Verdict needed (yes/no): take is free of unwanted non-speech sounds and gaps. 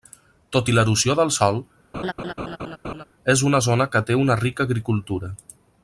no